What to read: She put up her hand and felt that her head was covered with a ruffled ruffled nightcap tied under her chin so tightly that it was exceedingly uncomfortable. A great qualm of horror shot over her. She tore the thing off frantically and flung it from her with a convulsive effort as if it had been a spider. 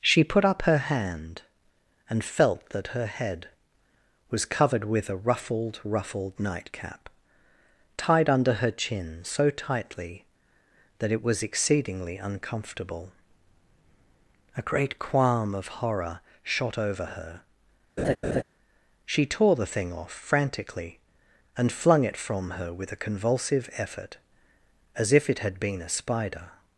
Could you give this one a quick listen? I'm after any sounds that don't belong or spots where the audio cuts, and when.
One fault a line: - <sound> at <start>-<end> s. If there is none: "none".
- laugh at 18.0-18.4 s